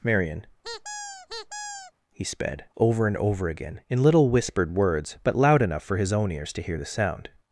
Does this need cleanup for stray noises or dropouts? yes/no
yes